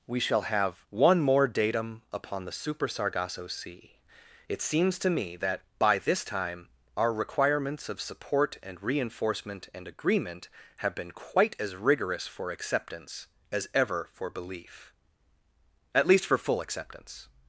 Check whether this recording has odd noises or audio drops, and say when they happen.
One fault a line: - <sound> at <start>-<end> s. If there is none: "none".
none